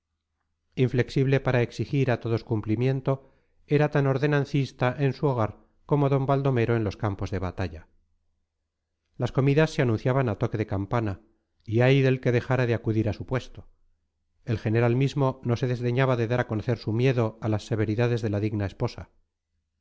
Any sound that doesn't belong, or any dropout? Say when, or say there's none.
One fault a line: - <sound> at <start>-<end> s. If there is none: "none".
none